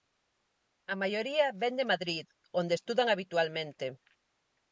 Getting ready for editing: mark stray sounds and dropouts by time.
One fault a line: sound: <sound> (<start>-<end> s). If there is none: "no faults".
no faults